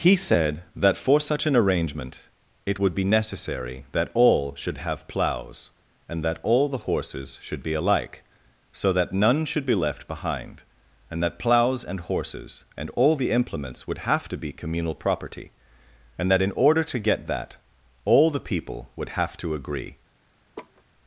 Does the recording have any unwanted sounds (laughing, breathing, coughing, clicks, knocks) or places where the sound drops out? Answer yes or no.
yes